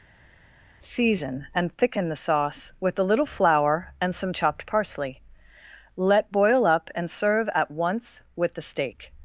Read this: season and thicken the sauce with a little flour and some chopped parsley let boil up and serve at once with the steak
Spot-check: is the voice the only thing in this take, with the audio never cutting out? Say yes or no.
yes